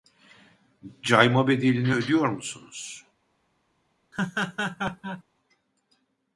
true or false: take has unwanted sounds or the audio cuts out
true